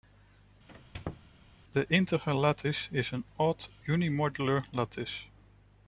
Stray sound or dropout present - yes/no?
yes